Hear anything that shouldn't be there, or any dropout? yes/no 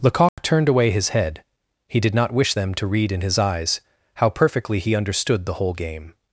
yes